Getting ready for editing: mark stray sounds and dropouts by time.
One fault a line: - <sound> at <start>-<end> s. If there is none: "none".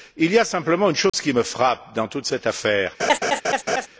- dropout at 1.1-1.1 s
- laugh at 3.0-3.9 s